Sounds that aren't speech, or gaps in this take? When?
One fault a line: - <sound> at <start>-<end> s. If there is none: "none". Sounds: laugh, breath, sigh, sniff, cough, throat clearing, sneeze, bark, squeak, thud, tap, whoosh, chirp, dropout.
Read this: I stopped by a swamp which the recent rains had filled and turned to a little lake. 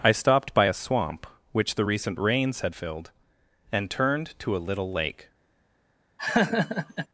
- laugh at 6.2-7.1 s